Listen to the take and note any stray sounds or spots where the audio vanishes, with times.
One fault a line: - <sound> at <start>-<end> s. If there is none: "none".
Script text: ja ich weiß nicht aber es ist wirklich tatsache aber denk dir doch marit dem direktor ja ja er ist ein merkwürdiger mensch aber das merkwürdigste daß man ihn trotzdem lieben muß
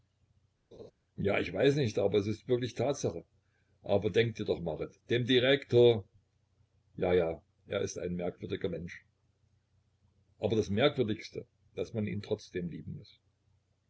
- laugh at 0.7-0.9 s